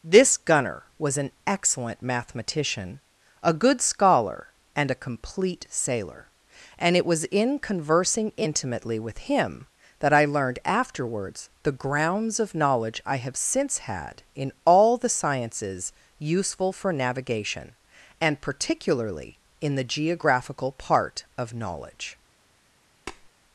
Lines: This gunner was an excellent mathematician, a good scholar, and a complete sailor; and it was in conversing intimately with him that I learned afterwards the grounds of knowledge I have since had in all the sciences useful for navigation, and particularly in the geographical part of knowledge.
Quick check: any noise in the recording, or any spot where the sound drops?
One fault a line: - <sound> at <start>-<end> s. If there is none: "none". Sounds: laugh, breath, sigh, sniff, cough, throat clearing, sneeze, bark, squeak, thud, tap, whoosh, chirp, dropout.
- tap at 23.1-23.3 s